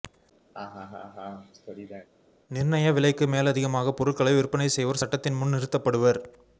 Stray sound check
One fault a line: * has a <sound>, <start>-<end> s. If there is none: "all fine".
* has a laugh, 0.5-2.1 s